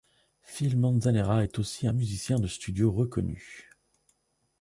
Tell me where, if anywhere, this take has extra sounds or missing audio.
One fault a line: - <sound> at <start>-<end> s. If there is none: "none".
none